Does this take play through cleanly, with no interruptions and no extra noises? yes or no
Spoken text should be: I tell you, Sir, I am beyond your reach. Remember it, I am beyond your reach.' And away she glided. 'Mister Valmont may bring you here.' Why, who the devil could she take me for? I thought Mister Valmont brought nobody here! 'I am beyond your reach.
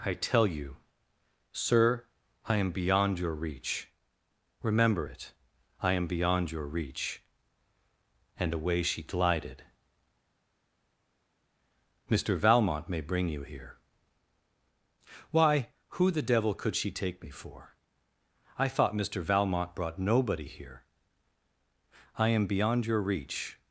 yes